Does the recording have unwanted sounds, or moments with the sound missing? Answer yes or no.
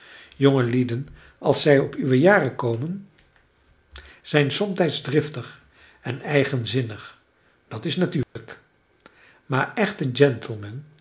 yes